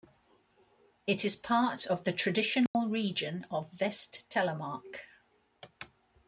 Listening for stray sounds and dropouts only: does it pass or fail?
fail